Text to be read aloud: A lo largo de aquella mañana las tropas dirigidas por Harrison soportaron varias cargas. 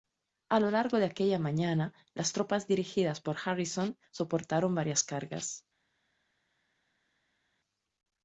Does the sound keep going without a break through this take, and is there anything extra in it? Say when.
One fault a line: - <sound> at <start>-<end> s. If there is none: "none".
none